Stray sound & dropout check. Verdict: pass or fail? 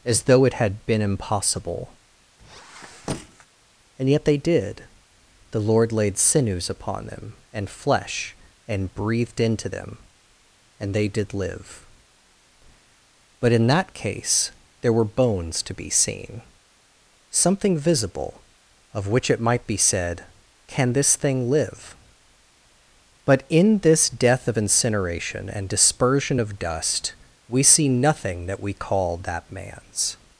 fail